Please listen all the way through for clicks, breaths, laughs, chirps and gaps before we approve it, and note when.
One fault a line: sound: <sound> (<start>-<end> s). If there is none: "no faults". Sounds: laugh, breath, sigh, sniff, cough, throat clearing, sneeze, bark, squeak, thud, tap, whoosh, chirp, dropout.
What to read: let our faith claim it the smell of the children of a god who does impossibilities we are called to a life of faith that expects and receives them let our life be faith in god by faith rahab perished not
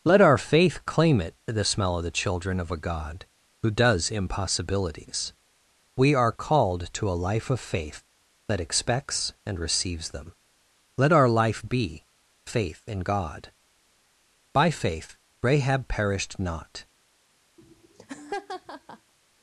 sound: laugh (17.6-19.1 s)